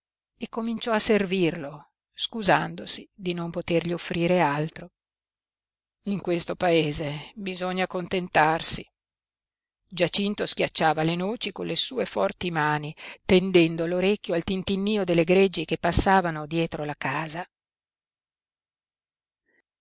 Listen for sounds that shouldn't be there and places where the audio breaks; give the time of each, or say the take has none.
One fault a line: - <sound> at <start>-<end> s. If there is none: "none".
none